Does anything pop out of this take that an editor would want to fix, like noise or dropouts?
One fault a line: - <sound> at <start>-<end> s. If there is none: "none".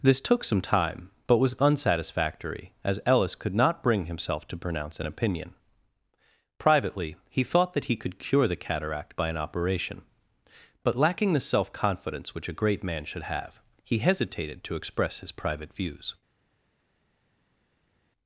none